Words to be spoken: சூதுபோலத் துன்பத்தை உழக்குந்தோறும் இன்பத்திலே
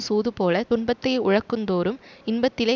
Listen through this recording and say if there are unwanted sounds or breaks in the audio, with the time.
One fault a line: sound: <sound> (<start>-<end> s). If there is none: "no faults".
no faults